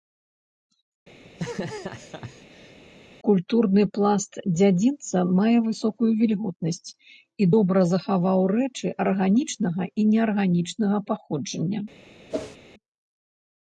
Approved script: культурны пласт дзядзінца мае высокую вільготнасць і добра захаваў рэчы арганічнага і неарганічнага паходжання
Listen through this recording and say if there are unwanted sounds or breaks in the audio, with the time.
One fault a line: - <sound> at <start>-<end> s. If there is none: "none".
- laugh at 1.2-2.8 s
- whoosh at 12.3-12.6 s